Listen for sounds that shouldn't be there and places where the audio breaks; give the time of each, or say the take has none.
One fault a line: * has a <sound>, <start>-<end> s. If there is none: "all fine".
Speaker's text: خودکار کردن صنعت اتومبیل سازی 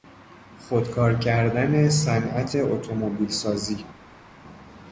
all fine